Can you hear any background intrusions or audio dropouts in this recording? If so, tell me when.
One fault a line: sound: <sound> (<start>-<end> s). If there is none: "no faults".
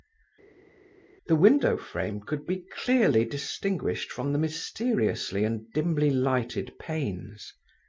no faults